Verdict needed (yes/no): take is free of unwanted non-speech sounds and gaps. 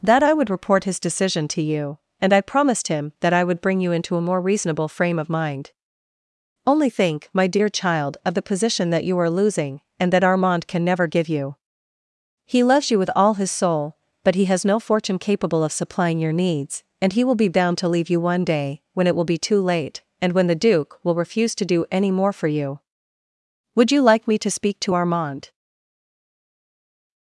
yes